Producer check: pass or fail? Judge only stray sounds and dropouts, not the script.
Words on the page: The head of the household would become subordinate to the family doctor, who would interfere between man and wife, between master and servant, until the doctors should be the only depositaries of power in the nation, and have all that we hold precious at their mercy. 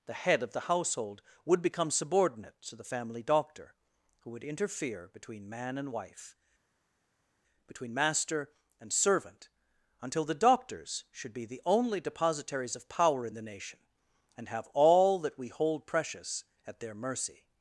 pass